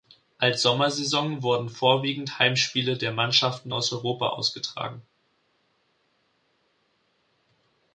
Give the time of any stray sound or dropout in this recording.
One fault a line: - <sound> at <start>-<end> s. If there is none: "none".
none